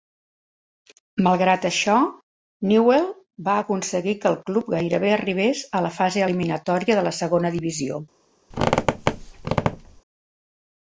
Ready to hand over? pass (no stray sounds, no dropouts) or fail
fail